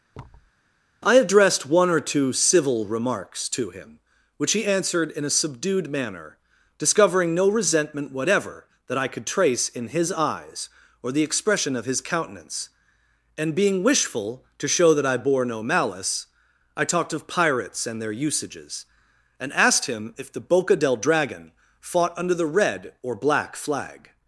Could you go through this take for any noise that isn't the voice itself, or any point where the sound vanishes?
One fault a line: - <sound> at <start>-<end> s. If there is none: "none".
- thud at 0.1-0.5 s